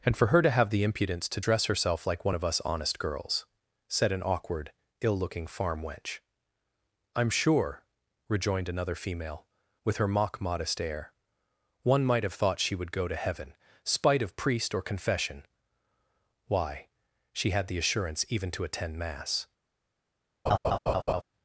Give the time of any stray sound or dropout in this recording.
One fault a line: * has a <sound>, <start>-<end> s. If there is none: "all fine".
* has a laugh, 20.5-21.2 s